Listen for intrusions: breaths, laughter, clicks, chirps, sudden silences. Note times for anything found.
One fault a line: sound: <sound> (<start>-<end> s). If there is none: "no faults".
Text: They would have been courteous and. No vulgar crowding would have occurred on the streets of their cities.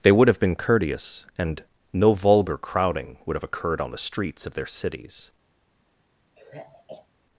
sound: sigh (6.4-7.1 s)